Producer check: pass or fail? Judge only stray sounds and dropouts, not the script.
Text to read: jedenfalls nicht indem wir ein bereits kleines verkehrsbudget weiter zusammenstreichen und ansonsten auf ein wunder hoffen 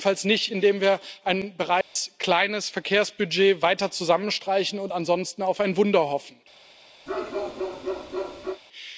fail